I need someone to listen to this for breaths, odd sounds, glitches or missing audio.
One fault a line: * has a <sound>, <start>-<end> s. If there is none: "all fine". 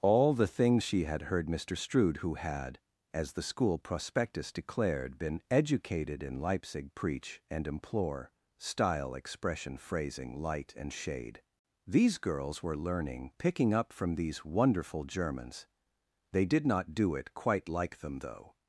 all fine